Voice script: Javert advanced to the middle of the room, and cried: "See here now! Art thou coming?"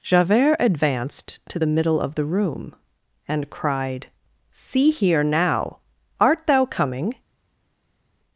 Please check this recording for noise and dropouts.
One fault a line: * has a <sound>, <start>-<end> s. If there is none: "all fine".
all fine